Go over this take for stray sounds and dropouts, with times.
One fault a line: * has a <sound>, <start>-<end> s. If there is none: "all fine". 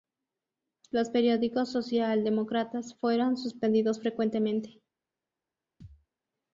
* has a thud, 5.8-6.1 s